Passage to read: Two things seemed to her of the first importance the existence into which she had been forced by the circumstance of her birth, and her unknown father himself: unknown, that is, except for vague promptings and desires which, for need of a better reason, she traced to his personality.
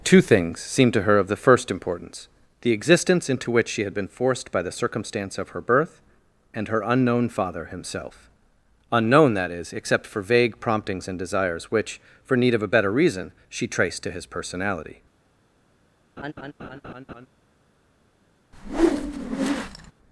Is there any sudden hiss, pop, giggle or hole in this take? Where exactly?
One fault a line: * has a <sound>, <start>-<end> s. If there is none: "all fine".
* has a laugh, 16.2-17.3 s
* has a whoosh, 18.5-19.9 s